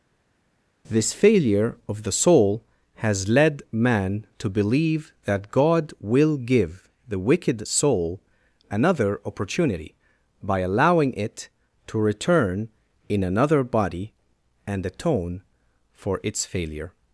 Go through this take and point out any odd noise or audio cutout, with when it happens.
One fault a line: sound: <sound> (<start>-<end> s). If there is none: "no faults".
no faults